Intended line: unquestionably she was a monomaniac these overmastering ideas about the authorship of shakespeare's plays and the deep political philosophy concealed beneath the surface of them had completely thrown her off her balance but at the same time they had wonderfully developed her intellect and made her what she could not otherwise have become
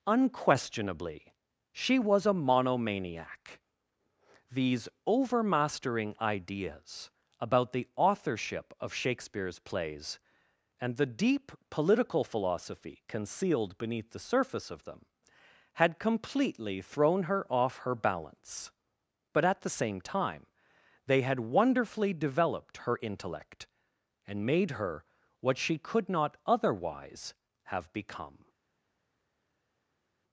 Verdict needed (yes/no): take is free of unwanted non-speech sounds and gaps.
yes